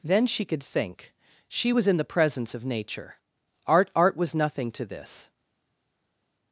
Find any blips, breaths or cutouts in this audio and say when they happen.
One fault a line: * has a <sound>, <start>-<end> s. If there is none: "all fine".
all fine